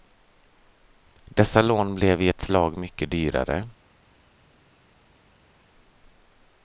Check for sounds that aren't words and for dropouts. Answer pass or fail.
pass